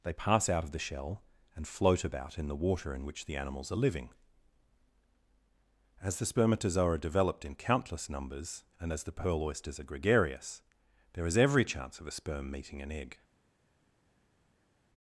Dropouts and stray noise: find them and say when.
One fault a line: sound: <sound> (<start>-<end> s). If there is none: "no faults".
no faults